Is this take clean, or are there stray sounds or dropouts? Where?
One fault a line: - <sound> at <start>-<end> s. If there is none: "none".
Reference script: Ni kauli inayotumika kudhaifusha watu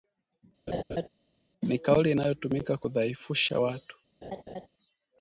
- laugh at 0.7-1.1 s
- laugh at 4.2-4.7 s